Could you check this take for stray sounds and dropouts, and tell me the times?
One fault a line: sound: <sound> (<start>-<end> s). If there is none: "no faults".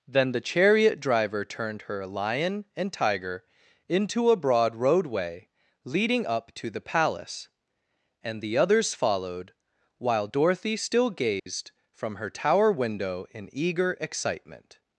sound: dropout (11.4-11.5 s)